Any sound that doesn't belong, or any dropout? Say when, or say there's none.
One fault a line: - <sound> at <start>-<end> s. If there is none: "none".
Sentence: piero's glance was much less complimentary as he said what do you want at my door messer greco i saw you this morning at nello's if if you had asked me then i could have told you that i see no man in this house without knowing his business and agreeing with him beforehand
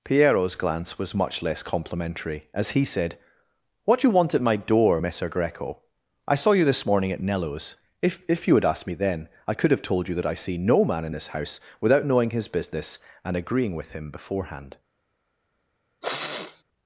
- sniff at 16.0-16.6 s